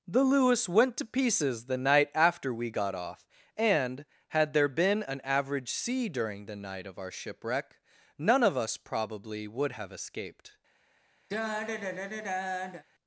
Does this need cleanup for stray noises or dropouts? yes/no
yes